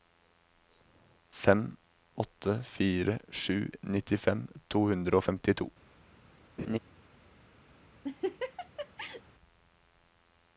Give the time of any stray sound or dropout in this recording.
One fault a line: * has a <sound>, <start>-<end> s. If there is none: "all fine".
* has a laugh, 6.6-6.8 s
* has a laugh, 8.0-9.2 s